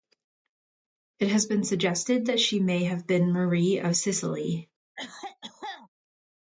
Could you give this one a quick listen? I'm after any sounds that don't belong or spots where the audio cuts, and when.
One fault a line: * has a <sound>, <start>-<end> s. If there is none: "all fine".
* has a cough, 5.0-5.9 s